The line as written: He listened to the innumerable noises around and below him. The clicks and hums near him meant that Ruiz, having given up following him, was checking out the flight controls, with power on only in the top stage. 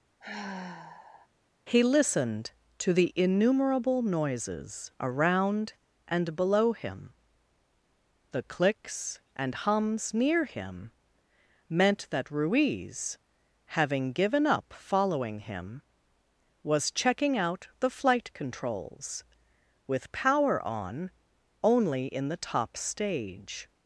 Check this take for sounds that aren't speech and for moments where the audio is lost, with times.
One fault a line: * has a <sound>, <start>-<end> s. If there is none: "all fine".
* has a sigh, 0.2-1.3 s